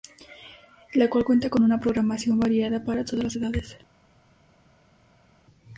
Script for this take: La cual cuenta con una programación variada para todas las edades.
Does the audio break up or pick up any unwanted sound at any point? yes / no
no